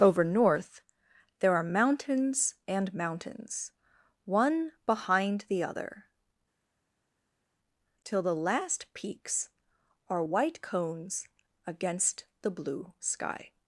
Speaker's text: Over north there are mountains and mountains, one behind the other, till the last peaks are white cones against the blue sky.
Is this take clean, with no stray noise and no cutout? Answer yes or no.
yes